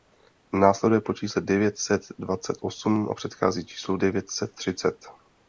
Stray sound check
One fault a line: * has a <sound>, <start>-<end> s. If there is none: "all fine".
all fine